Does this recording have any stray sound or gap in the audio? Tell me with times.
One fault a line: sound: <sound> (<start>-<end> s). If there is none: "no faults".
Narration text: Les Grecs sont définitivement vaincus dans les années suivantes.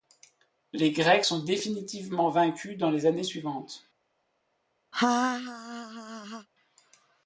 sound: laugh (4.9-6.5 s)